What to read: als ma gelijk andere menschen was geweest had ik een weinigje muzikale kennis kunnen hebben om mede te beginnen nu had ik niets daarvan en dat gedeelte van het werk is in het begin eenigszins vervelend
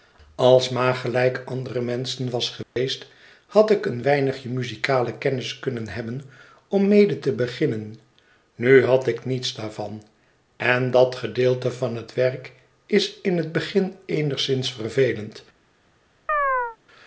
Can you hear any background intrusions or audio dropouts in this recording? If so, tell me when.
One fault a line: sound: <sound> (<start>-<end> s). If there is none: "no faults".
sound: dropout (2.6-2.8 s)
sound: chirp (16.3-16.8 s)